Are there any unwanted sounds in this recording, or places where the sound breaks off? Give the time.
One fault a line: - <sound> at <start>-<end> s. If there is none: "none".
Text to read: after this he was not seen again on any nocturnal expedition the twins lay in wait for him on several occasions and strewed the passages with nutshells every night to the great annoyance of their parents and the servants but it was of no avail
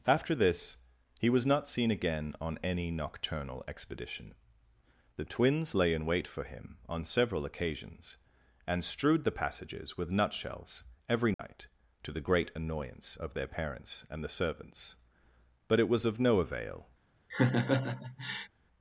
- dropout at 11.3-11.4 s
- laugh at 17.3-18.5 s